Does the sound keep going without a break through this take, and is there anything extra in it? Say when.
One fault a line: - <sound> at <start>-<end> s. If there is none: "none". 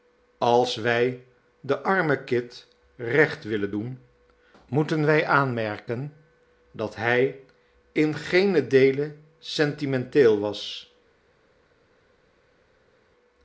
none